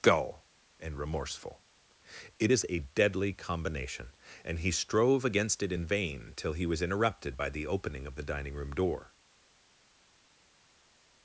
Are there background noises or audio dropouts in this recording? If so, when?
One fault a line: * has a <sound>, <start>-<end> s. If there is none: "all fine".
all fine